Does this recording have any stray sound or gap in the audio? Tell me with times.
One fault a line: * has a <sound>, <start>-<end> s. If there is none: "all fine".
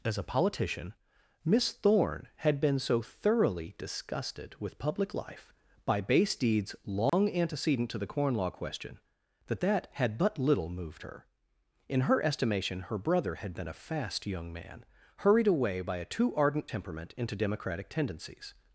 * has a dropout, 7.1-7.1 s